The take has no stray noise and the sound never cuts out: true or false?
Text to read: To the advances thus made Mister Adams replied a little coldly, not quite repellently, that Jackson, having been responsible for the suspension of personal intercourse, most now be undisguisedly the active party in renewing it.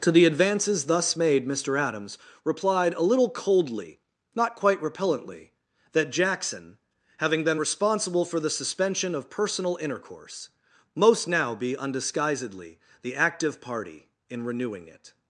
true